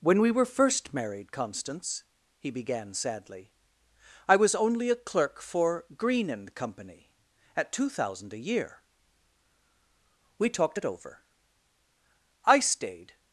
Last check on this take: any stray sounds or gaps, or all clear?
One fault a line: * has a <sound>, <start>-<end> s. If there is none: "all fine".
all fine